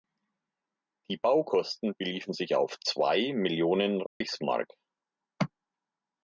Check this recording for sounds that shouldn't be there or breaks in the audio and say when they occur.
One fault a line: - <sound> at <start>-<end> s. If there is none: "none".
- dropout at 4.1-4.2 s